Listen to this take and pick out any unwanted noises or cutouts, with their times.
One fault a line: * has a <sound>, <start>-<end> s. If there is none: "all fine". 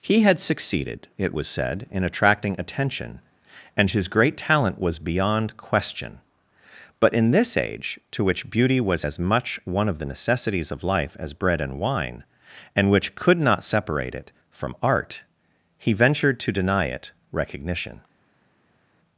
all fine